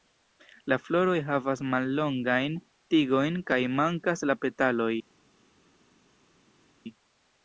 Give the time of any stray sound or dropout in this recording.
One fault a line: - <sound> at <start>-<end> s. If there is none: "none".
none